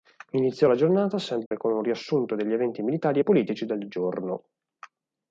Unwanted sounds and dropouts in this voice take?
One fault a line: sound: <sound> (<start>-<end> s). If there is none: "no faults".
sound: dropout (1.5-1.5 s)